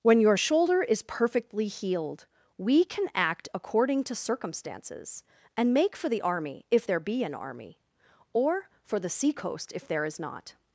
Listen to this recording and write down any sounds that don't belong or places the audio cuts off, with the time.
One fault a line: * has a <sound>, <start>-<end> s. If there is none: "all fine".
all fine